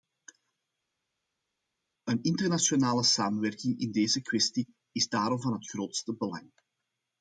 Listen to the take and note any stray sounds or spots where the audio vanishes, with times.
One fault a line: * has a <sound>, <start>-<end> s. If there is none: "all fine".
all fine